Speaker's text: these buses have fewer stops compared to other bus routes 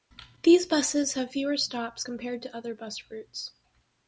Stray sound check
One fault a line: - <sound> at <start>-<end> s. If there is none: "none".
none